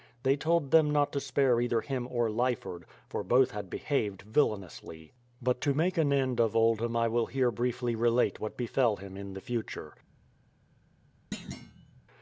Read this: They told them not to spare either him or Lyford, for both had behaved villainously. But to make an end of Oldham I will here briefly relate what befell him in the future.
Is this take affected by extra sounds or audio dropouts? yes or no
yes